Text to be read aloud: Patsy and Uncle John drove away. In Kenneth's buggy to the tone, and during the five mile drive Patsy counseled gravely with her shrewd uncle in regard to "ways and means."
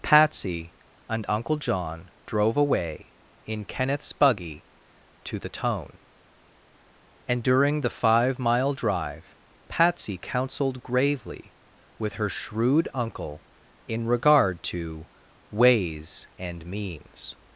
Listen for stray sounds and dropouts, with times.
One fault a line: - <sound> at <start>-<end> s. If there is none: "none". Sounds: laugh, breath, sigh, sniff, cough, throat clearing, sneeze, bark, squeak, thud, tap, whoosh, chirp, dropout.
none